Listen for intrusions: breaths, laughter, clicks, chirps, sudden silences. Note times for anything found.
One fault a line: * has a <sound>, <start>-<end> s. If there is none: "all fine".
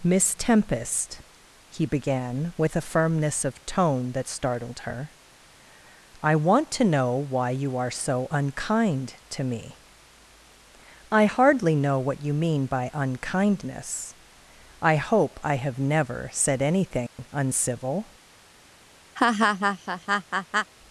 * has a dropout, 17.1-17.2 s
* has a laugh, 19.2-20.7 s